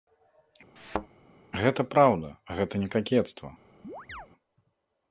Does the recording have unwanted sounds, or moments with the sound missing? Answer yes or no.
yes